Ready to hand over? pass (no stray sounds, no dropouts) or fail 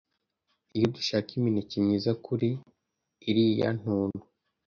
pass